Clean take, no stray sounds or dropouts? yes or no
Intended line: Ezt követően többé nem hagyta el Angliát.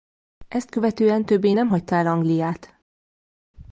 yes